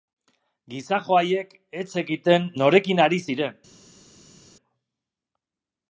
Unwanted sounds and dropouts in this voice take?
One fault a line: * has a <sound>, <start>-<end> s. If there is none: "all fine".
all fine